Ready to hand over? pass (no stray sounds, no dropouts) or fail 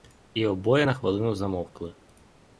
pass